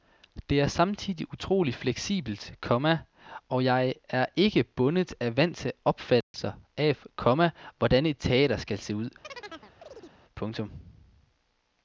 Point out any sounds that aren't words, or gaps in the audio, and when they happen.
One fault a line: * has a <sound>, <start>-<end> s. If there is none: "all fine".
* has a dropout, 6.2-6.3 s
* has a chirp, 9.2-10.2 s